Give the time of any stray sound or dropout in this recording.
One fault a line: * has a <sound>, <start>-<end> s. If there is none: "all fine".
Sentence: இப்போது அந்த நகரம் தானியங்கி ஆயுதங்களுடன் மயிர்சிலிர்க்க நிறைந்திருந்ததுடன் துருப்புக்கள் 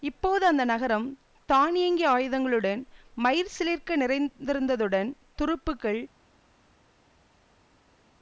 all fine